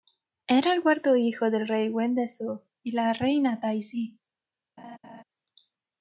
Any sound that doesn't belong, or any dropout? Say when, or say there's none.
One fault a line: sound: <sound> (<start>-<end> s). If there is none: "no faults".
sound: laugh (4.8-5.2 s)